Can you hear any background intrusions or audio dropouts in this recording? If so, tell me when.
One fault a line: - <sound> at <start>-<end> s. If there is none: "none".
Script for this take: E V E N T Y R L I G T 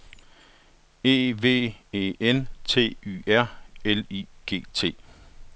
none